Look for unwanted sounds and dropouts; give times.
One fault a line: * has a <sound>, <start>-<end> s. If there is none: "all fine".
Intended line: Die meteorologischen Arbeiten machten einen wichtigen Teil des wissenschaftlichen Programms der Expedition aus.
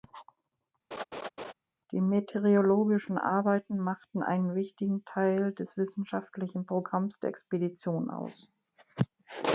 * has a laugh, 0.9-1.5 s